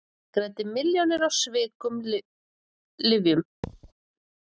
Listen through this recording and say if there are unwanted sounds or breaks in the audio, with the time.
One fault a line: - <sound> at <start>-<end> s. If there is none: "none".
- thud at 3.6-3.9 s